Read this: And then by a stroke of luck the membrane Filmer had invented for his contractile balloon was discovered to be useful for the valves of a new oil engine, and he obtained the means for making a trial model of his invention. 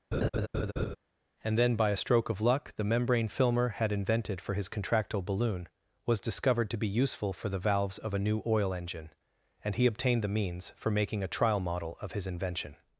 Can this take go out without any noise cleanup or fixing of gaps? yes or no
no